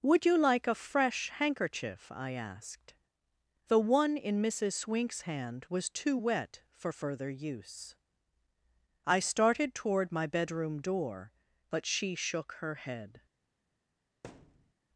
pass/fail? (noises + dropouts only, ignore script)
fail